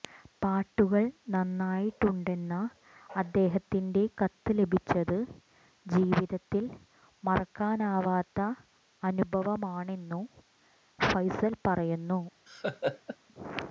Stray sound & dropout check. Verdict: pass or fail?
fail